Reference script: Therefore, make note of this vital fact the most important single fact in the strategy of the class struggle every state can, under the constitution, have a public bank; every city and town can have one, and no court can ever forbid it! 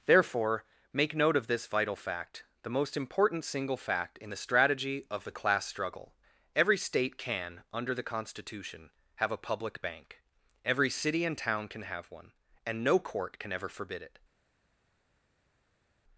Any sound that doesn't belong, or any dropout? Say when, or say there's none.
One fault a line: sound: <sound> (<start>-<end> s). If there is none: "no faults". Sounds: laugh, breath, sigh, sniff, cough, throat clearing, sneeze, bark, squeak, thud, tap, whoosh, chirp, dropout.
no faults